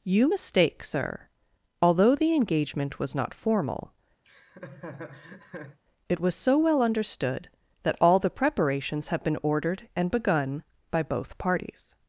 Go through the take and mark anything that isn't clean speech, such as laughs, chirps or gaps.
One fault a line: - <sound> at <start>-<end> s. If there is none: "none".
- laugh at 4.2-5.8 s